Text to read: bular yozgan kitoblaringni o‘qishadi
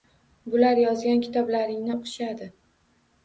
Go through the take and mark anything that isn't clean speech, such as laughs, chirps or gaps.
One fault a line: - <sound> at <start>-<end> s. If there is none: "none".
none